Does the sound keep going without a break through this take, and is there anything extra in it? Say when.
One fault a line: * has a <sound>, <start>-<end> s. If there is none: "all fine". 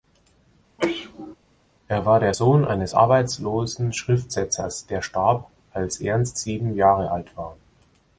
* has a sneeze, 0.8-1.4 s